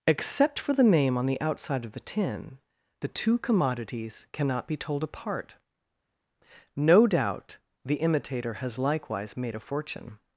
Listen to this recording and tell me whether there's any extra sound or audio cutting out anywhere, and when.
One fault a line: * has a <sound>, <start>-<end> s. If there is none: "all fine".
all fine